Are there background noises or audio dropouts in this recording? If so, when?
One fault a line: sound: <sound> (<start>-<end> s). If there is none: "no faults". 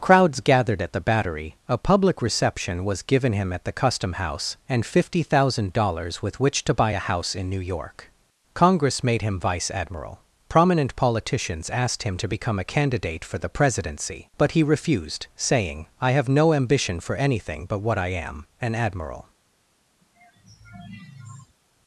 sound: sigh (20.0-21.6 s)